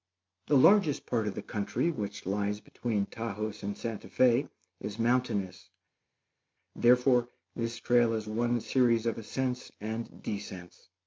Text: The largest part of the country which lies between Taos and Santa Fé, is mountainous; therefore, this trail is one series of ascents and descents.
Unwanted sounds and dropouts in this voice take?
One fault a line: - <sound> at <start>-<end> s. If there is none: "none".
none